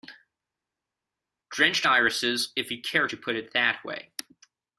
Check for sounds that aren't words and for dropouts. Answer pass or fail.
pass